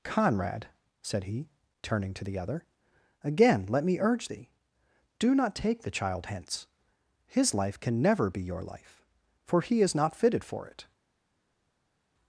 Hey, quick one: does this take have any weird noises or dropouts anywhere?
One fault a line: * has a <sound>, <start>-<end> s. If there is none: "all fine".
all fine